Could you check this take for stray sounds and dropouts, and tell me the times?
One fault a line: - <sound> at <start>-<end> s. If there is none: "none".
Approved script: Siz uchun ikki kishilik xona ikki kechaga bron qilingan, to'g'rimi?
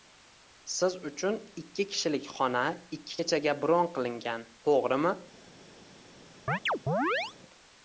- chirp at 6.5-7.3 s